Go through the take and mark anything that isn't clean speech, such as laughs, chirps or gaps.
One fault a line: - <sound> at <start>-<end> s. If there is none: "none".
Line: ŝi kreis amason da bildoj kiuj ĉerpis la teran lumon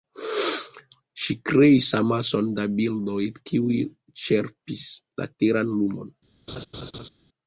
- laugh at 6.5-7.1 s